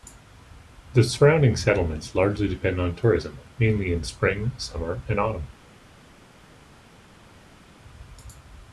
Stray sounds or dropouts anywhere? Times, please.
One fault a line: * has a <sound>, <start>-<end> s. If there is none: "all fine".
all fine